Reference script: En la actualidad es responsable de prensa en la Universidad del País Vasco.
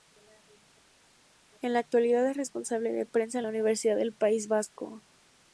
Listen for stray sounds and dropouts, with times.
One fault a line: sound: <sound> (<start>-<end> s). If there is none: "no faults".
no faults